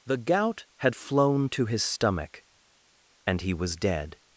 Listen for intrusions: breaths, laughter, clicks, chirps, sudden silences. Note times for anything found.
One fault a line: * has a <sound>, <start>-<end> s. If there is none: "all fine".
all fine